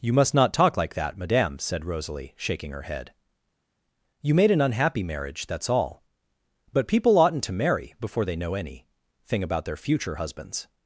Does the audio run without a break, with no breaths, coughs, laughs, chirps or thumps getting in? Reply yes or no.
yes